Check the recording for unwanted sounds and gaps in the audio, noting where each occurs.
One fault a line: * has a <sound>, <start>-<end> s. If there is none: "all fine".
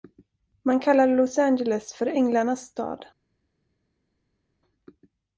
all fine